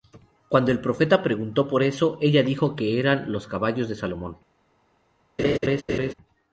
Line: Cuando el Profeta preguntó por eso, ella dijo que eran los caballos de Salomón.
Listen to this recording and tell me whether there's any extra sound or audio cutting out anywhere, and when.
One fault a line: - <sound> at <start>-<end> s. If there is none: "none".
- laugh at 5.4-6.1 s